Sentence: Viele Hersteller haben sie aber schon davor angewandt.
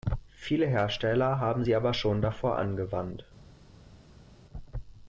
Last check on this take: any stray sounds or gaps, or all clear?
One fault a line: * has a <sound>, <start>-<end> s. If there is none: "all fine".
all fine